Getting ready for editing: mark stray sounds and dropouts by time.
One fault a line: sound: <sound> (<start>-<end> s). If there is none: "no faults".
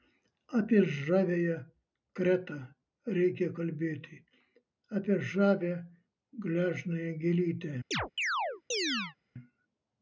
sound: chirp (7.9-9.2 s)